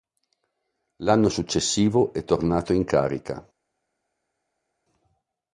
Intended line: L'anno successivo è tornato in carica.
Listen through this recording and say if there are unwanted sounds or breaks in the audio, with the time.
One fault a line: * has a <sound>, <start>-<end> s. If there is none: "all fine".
all fine